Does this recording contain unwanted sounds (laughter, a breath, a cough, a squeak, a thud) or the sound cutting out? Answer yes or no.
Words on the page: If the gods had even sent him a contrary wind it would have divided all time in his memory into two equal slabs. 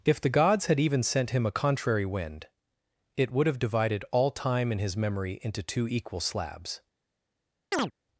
yes